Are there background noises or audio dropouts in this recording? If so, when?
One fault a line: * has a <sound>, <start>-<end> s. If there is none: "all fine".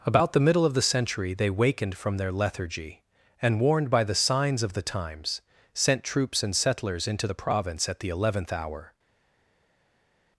all fine